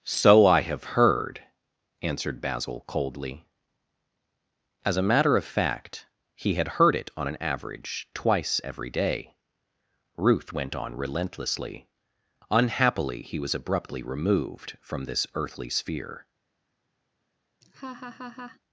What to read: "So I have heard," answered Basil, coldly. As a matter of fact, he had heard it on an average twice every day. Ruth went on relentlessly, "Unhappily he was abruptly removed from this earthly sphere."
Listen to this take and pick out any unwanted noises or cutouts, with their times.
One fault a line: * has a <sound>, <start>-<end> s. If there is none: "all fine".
* has a laugh, 17.6-18.6 s